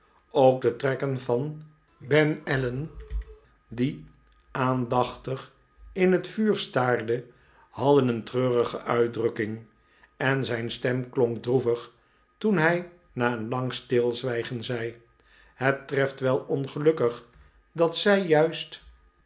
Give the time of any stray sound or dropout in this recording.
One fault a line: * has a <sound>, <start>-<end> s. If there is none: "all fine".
all fine